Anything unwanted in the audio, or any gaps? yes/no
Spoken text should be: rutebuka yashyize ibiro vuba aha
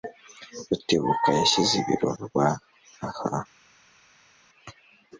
no